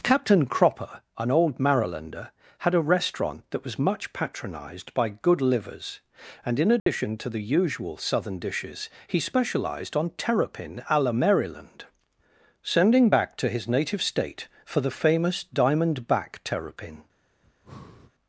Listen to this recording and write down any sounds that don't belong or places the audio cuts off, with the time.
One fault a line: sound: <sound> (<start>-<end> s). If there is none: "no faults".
sound: dropout (6.8-6.9 s)
sound: breath (17.4-18.1 s)